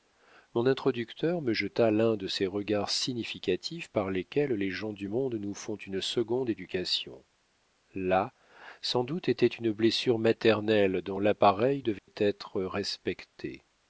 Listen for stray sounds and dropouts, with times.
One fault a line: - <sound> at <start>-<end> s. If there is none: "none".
- dropout at 12.0-12.1 s